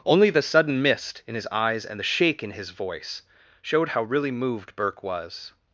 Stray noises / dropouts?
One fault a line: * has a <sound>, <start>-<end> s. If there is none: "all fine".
all fine